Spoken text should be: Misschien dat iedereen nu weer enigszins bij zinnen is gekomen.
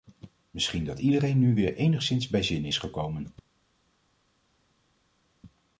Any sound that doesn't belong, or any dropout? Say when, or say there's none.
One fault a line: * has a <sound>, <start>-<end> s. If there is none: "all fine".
all fine